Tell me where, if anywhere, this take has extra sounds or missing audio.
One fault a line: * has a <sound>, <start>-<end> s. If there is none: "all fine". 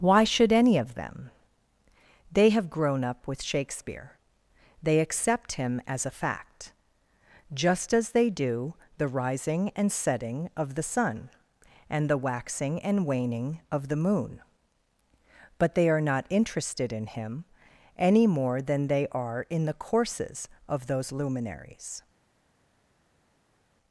all fine